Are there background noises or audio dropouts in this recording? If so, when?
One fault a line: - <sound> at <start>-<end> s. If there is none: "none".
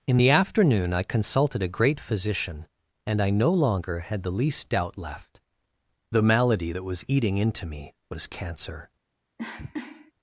- cough at 9.4-10.1 s